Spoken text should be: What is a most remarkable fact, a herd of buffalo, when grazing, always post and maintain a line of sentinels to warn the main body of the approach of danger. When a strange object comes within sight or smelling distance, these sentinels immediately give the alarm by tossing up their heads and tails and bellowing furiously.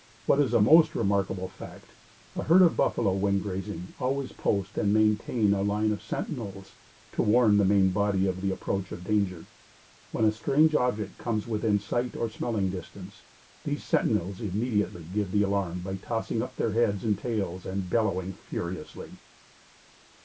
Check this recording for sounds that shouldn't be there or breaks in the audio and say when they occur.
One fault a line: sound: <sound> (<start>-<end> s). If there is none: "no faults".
no faults